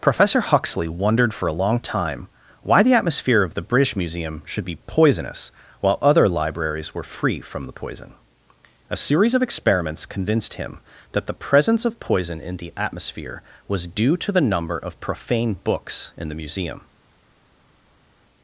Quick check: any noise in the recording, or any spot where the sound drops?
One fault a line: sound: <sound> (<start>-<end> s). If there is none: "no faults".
no faults